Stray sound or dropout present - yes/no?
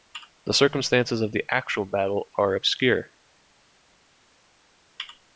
no